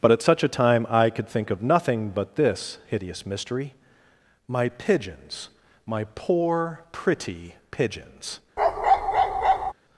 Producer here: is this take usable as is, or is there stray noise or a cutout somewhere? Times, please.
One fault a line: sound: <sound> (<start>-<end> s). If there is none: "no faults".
sound: bark (8.6-9.7 s)